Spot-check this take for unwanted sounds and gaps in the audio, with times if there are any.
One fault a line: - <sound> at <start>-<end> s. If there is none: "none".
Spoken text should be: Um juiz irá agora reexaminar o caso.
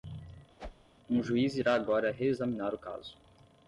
- whoosh at 0.6-0.9 s